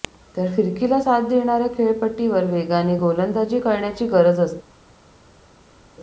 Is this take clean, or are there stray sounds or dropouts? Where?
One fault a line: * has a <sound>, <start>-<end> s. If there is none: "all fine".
all fine